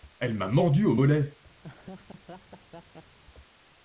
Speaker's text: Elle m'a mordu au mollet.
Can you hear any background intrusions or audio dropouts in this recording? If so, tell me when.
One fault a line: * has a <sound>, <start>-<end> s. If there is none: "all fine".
* has a laugh, 1.6-3.2 s